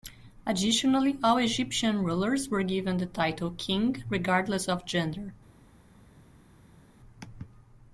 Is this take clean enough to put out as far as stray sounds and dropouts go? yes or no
yes